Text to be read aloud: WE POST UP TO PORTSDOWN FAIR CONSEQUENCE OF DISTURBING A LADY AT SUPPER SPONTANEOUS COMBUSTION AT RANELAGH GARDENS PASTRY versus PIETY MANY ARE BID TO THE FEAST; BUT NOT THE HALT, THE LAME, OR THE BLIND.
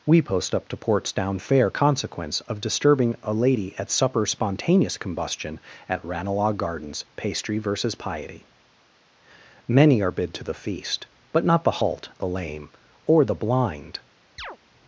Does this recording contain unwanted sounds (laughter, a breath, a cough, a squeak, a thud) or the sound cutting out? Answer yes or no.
yes